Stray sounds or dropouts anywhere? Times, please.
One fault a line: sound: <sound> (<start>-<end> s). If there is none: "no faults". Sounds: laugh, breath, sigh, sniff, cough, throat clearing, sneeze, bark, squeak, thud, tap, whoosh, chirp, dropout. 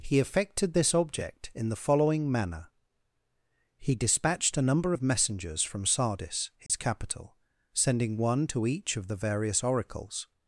sound: dropout (6.7-6.7 s)